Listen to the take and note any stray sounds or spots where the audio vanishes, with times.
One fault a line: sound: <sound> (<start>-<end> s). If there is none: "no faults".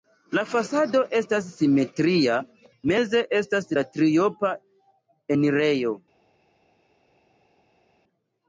no faults